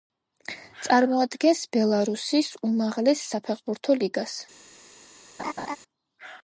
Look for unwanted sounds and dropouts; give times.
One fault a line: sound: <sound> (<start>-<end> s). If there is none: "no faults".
sound: laugh (5.4-5.8 s)